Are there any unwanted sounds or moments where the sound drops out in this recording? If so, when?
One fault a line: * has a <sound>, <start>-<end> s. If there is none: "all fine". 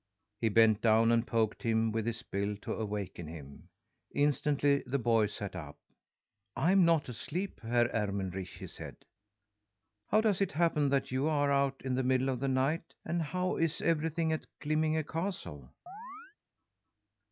* has a chirp, 15.9-16.4 s